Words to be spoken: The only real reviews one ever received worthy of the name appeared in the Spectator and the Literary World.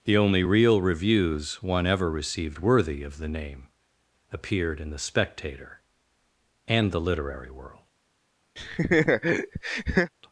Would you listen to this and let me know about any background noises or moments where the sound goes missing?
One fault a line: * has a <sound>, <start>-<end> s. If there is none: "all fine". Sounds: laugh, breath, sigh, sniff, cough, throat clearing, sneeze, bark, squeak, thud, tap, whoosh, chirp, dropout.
* has a laugh, 8.6-10.1 s